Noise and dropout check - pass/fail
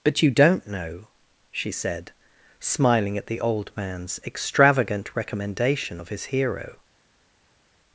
pass